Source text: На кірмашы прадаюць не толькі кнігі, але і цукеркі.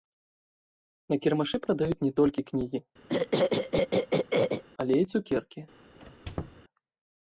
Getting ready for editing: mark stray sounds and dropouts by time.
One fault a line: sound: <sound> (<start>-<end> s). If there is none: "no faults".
sound: throat clearing (3.1-4.6 s)
sound: squeak (6.0-6.6 s)